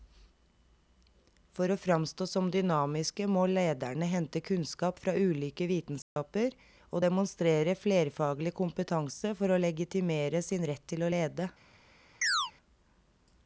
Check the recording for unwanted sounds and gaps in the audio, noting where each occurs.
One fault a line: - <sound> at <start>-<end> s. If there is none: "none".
- dropout at 6.0-6.2 s
- chirp at 12.2-12.5 s